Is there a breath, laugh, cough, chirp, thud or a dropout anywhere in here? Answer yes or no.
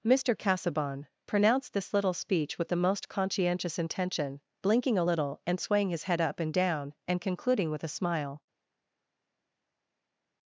no